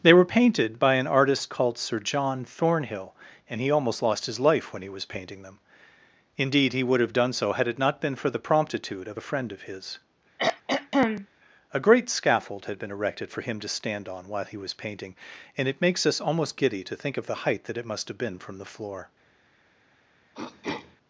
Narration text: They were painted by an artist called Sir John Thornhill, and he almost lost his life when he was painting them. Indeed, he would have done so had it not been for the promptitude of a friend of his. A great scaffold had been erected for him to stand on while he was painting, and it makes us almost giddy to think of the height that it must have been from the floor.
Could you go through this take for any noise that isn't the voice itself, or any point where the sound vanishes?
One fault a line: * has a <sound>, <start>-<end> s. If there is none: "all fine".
* has a throat clearing, 10.4-11.3 s
* has a throat clearing, 20.3-21.0 s